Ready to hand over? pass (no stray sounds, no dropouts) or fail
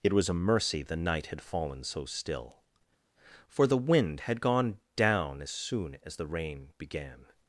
pass